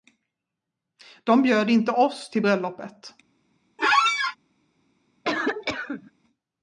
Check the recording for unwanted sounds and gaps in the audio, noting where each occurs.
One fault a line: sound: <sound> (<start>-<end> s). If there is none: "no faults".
sound: squeak (3.8-4.4 s)
sound: cough (5.2-6.1 s)